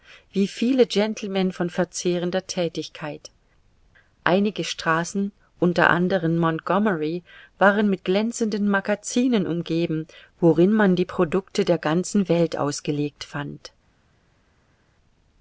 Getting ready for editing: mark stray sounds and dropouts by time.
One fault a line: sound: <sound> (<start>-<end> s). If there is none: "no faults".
no faults